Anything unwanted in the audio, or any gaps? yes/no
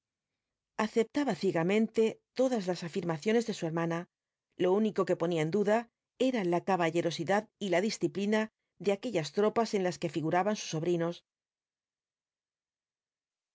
no